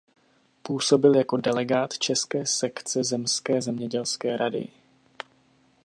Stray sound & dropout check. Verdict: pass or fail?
pass